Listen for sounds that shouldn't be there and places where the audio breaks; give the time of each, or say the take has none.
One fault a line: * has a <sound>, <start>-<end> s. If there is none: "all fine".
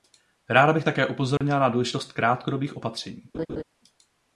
* has a dropout, 1.4-1.4 s
* has a laugh, 3.3-3.6 s